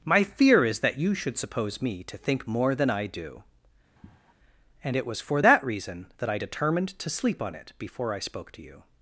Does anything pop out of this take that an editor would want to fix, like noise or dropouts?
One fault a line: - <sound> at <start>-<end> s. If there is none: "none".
- sigh at 4.0-4.3 s